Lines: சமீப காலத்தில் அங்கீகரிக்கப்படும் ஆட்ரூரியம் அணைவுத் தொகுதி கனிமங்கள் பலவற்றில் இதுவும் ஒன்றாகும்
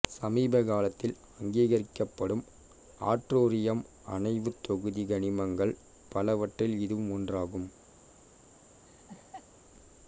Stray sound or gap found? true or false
true